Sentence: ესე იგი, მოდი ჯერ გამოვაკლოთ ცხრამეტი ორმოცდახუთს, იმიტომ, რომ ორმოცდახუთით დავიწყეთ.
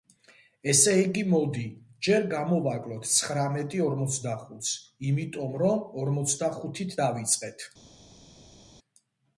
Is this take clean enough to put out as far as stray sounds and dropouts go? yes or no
yes